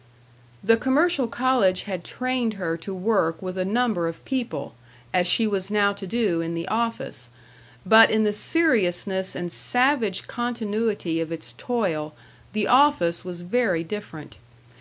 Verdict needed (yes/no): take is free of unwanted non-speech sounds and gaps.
yes